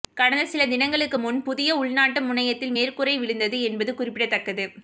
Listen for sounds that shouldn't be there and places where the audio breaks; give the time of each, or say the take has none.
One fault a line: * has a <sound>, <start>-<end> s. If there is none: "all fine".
all fine